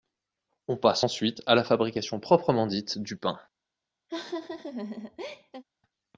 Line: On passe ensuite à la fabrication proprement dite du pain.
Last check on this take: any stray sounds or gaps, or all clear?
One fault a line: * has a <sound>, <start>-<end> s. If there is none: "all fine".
* has a laugh, 4.1-5.6 s